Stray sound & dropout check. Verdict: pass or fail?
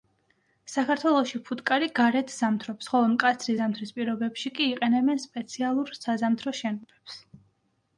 pass